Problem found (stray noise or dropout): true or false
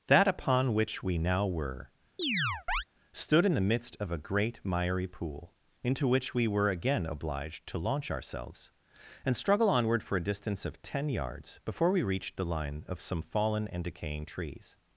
true